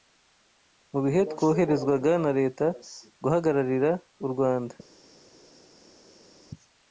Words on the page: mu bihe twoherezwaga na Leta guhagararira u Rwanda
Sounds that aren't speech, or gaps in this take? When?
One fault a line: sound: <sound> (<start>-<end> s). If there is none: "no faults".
no faults